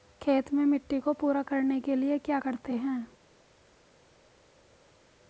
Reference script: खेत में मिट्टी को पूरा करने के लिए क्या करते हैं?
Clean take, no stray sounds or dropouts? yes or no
yes